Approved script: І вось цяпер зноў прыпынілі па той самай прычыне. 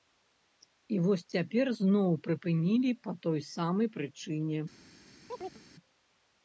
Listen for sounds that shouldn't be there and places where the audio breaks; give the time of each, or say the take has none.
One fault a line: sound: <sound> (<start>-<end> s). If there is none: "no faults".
sound: chirp (5.3-5.6 s)